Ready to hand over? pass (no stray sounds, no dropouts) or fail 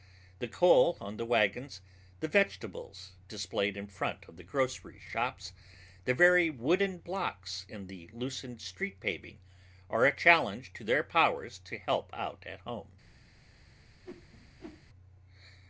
fail